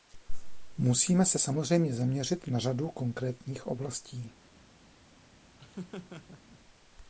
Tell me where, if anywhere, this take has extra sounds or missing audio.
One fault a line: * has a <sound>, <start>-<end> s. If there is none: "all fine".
* has a laugh, 5.6-6.6 s